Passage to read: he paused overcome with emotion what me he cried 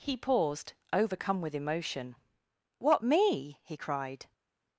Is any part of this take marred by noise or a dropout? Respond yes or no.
no